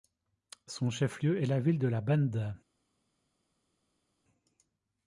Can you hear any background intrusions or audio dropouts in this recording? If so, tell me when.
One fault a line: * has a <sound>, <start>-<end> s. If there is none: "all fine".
all fine